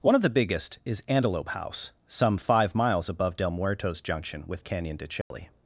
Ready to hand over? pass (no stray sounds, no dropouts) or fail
fail